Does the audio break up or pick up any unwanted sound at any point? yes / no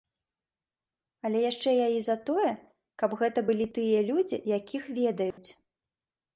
yes